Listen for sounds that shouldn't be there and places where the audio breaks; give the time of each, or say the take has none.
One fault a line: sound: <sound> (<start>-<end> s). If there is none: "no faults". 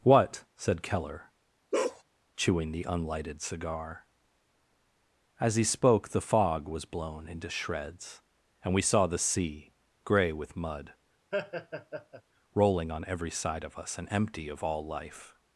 sound: bark (1.7-2.0 s)
sound: laugh (11.3-12.2 s)